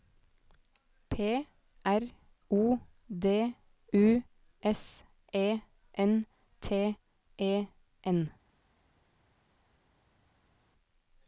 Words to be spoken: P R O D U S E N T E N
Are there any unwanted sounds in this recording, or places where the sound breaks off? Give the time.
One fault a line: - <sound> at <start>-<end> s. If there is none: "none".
none